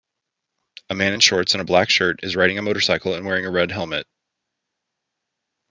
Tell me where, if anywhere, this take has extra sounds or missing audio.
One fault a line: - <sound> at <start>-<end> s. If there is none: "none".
none